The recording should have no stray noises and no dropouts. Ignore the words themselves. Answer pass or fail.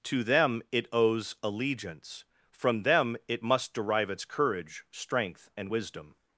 pass